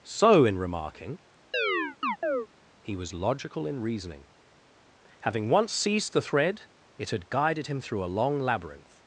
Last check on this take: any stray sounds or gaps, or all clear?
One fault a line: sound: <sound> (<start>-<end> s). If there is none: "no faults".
sound: chirp (1.5-2.5 s)